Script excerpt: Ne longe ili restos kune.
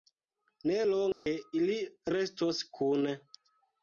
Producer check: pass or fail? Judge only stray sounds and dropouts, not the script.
fail